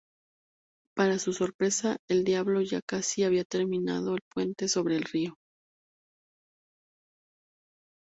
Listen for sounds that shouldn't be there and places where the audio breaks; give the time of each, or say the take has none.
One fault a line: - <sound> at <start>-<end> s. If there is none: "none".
none